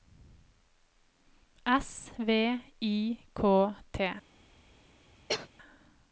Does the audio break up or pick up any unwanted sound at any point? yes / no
yes